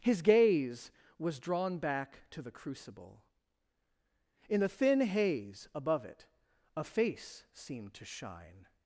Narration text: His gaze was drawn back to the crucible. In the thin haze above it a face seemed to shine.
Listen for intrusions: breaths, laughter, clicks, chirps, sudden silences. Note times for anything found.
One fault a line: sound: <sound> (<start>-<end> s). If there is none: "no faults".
no faults